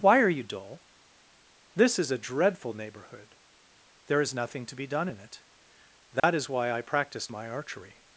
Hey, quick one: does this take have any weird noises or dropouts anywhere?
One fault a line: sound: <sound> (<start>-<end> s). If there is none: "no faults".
sound: dropout (6.2-6.2 s)